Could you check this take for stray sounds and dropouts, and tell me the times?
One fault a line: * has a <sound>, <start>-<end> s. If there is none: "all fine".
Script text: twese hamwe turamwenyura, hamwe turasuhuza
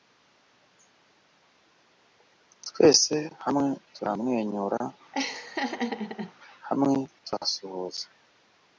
* has a laugh, 5.1-6.3 s